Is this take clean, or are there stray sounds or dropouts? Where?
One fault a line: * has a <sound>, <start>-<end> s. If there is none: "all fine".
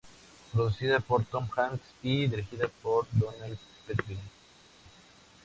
all fine